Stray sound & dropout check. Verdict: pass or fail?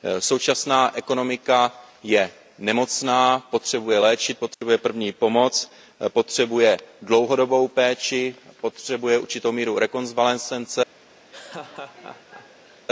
fail